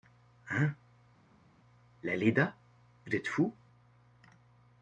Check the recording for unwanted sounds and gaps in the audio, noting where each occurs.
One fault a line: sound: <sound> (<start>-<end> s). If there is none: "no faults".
no faults